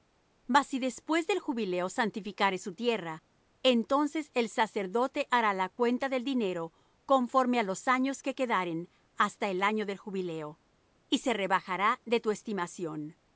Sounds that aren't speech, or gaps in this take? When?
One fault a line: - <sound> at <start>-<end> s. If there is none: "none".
none